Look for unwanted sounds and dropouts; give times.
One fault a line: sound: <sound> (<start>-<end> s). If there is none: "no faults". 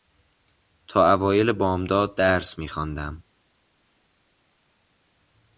no faults